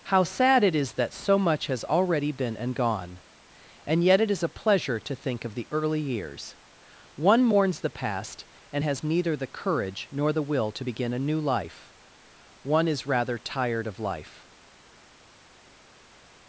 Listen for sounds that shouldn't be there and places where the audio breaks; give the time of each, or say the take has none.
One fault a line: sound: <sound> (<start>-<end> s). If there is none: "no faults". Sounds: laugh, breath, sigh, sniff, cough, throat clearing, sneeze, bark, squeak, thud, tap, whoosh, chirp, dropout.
no faults